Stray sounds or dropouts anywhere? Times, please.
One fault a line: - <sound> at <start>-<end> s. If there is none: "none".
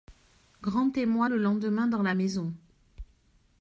none